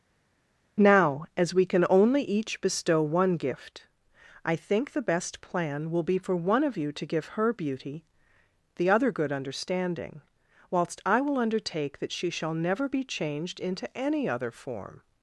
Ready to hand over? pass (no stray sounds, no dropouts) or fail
pass